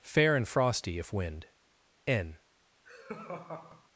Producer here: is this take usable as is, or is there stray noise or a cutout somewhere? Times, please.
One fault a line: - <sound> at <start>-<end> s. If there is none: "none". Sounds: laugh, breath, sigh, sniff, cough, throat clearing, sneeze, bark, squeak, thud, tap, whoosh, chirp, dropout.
- laugh at 2.9-3.9 s